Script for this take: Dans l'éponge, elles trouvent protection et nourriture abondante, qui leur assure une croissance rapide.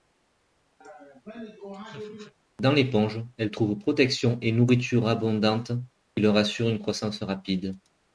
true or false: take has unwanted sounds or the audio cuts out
true